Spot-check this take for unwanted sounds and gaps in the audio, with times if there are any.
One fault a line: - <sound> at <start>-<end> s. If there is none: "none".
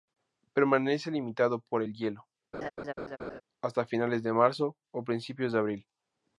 - laugh at 2.5-3.4 s